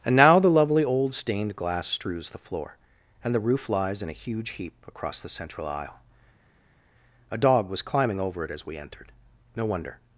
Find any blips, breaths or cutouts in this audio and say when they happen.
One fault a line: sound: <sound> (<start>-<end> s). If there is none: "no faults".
no faults